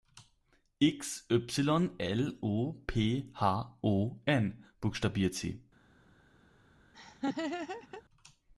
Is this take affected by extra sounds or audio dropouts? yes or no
yes